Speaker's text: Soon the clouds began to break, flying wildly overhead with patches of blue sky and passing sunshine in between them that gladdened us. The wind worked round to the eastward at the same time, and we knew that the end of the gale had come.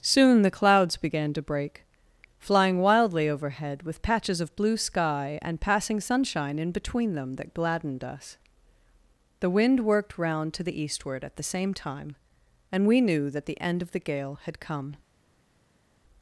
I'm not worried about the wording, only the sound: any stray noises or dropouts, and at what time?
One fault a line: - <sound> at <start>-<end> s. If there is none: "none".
none